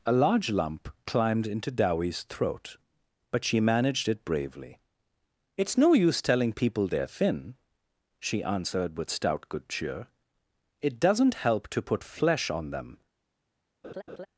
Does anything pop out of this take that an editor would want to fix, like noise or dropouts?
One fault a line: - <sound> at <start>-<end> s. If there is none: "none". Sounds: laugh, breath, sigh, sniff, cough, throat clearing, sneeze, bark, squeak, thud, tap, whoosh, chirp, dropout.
- laugh at 13.8-14.3 s